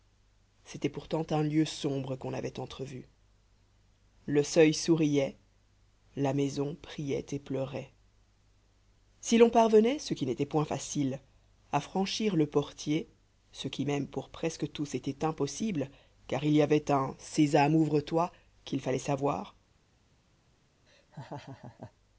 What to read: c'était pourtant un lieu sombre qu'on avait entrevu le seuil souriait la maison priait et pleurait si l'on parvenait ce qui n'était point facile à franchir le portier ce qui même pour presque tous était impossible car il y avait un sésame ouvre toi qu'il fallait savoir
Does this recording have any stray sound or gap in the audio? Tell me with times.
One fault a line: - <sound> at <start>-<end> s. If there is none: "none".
- laugh at 20.9-21.9 s